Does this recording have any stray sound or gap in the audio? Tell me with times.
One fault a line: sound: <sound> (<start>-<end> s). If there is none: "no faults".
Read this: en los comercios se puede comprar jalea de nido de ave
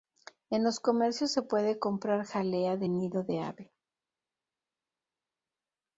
no faults